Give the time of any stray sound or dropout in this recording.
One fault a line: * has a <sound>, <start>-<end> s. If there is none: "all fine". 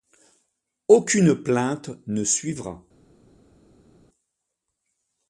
all fine